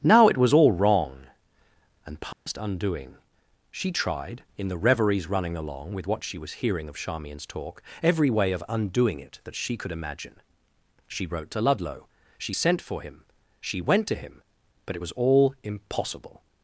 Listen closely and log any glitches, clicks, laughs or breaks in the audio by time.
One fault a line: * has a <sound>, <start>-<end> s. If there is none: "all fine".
* has a dropout, 2.3-2.5 s